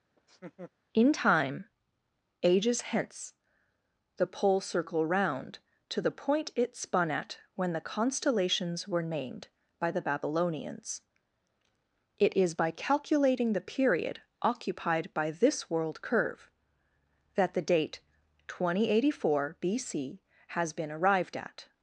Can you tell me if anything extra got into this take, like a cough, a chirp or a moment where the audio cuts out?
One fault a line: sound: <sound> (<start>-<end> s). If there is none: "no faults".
sound: laugh (0.2-0.7 s)